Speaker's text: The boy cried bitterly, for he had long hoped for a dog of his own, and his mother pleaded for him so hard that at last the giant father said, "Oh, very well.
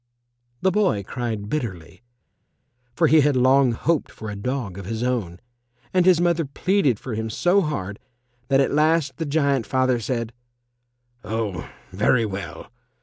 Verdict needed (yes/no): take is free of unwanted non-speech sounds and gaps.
yes